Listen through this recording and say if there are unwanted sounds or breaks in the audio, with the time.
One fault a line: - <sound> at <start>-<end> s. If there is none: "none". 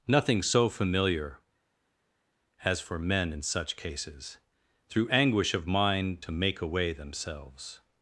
none